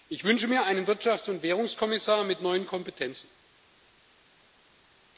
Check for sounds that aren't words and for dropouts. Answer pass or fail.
pass